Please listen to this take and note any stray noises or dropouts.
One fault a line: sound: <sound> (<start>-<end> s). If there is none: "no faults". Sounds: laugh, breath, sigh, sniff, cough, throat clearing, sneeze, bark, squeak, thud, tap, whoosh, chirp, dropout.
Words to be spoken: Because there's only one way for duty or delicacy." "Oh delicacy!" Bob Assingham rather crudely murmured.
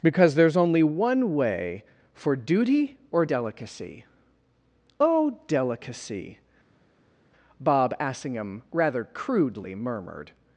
no faults